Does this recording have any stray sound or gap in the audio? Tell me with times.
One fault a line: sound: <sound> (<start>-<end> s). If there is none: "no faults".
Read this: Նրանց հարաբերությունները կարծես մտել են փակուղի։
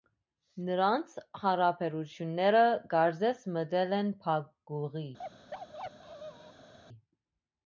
sound: bark (5.2-6.7 s)